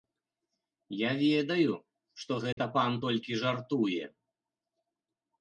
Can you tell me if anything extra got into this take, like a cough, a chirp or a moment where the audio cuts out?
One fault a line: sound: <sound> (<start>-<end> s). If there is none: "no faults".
sound: dropout (2.5-2.6 s)